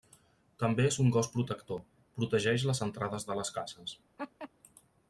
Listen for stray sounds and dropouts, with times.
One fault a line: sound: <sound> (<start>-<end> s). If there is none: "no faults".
sound: laugh (4.2-4.5 s)